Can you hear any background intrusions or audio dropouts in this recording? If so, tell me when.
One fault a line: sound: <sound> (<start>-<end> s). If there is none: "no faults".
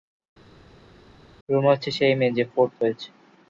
no faults